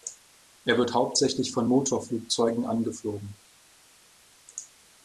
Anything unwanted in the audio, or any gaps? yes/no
no